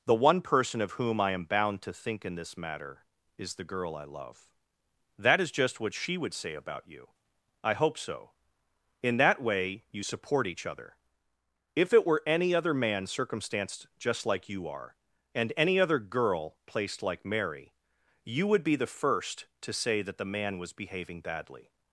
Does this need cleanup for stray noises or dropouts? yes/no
no